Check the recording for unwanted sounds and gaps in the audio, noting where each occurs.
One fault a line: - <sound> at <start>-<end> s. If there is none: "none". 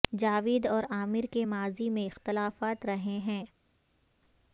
none